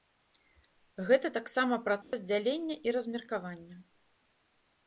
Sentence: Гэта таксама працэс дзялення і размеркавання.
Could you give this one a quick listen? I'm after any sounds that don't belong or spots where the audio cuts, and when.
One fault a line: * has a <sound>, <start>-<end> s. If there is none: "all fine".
* has a dropout, 2.0-2.1 s